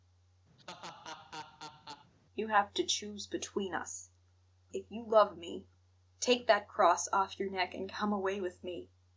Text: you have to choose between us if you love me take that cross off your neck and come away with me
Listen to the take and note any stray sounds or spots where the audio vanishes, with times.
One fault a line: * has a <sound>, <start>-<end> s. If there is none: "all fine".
* has a laugh, 0.6-2.1 s